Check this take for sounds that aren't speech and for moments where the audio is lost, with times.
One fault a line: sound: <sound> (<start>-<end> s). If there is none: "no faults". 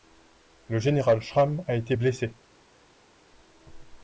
no faults